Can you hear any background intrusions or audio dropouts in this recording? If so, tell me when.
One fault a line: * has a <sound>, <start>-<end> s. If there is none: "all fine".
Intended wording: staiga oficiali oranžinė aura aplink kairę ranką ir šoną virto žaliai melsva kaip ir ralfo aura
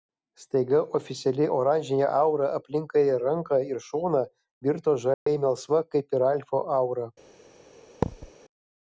* has a dropout, 5.1-5.3 s
* has a thud, 8.0-8.3 s